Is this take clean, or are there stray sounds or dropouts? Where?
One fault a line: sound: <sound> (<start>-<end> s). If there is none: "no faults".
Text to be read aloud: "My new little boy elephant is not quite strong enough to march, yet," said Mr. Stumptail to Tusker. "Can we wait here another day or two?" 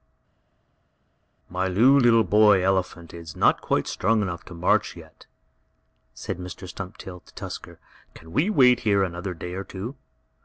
no faults